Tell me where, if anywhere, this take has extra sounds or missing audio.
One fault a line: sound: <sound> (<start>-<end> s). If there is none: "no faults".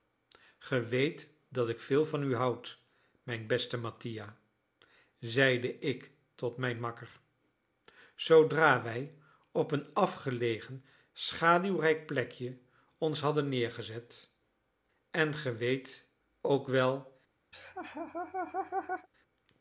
sound: laugh (17.5-19.1 s)